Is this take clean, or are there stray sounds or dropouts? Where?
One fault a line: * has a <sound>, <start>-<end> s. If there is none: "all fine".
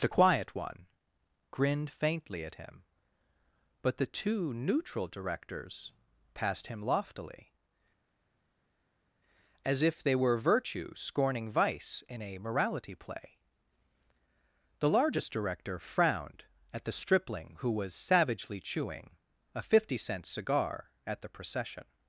all fine